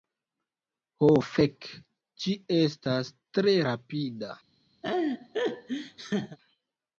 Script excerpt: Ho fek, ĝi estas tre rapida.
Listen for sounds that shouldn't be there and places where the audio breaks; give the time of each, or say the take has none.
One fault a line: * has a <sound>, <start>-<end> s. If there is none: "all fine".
* has a laugh, 4.8-6.4 s